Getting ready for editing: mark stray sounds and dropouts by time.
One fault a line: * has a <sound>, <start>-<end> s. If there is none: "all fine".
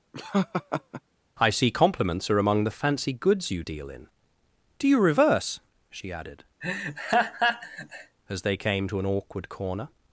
* has a laugh, 0.1-1.0 s
* has a laugh, 6.6-8.2 s